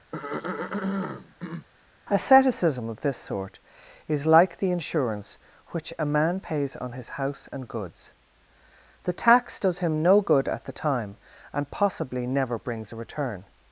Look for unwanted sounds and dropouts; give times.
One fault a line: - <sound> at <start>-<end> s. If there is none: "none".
- throat clearing at 0.1-1.7 s